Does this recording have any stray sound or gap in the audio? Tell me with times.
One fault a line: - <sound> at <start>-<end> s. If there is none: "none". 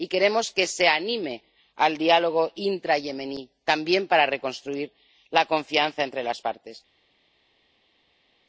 none